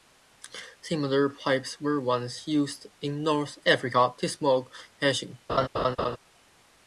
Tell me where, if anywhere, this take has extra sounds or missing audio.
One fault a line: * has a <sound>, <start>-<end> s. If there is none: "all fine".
* has a laugh, 5.5-6.2 s